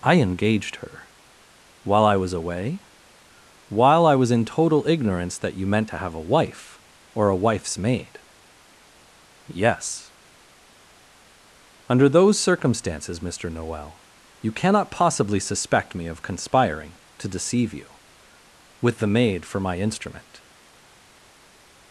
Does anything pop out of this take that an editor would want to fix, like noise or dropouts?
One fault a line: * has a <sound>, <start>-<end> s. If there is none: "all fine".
all fine